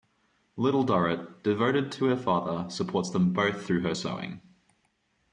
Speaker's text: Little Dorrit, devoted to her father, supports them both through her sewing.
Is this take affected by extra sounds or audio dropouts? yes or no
no